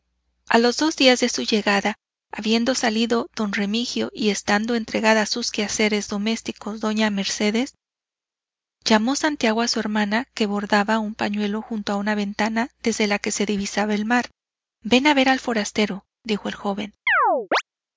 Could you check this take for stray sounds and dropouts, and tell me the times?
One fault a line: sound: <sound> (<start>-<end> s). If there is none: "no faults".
sound: chirp (17.1-17.6 s)